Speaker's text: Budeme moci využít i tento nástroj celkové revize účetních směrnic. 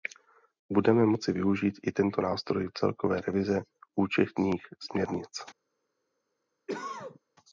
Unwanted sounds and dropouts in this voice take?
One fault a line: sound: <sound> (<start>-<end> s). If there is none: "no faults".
sound: cough (6.7-7.2 s)